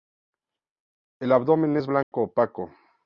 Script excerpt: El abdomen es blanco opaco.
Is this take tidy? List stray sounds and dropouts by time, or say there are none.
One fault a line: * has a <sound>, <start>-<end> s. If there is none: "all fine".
* has a dropout, 2.0-2.1 s